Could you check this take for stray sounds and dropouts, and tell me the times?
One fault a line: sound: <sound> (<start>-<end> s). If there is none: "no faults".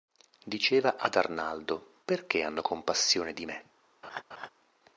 sound: laugh (4.0-4.5 s)